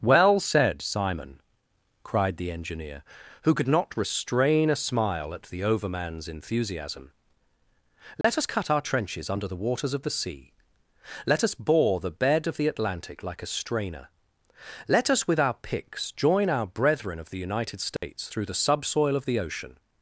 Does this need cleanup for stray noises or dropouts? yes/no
yes